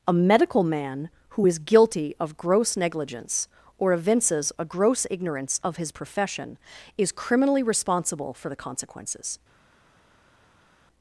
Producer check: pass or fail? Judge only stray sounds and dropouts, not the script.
pass